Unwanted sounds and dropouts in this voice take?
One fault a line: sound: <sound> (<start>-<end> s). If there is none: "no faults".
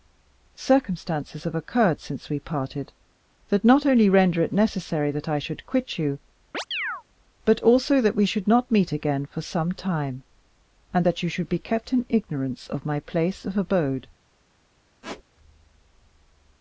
sound: chirp (6.5-7.0 s)
sound: squeak (15.0-15.2 s)